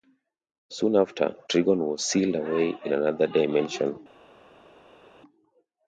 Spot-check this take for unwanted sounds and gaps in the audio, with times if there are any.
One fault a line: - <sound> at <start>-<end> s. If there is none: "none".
none